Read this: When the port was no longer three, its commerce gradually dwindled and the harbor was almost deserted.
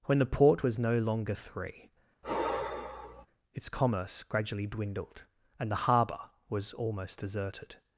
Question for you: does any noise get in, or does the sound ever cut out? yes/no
yes